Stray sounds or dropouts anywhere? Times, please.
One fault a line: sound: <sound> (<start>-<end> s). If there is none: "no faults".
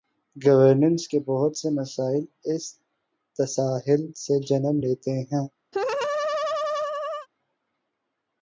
sound: laugh (5.7-7.3 s)